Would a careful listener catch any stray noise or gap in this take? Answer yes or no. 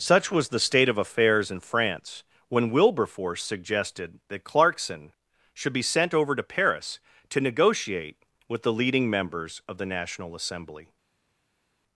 no